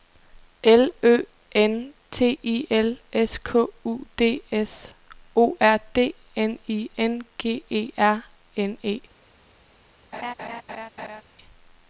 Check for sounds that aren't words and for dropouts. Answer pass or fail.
fail